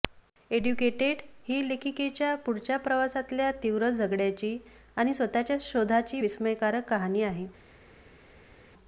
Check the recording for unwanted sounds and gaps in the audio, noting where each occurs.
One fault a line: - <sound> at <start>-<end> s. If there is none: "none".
none